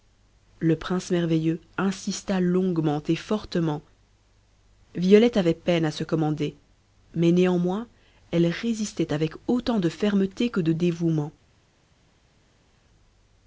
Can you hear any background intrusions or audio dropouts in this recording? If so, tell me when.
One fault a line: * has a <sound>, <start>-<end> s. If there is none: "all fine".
all fine